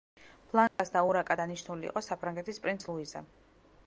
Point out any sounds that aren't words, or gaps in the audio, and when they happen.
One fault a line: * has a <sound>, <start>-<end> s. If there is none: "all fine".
* has a dropout, 0.7-0.8 s